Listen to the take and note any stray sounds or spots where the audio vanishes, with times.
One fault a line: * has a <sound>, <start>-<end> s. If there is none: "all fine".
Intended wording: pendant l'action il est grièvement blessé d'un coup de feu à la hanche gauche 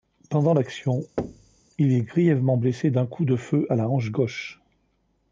* has a thud, 1.2-1.6 s